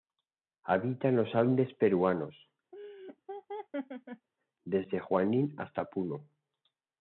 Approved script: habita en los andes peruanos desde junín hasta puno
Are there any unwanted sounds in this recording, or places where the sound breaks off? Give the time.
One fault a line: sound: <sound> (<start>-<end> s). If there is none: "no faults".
sound: laugh (2.7-4.3 s)